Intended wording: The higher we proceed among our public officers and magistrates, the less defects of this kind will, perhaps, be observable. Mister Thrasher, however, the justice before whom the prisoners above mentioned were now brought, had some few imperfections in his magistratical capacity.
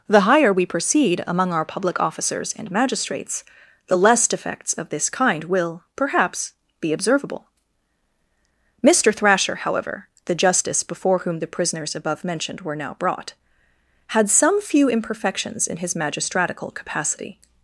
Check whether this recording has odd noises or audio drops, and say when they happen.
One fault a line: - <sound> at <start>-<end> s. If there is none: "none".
none